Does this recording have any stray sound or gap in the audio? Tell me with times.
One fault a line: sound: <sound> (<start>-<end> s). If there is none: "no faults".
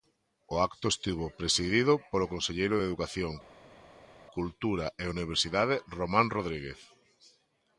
no faults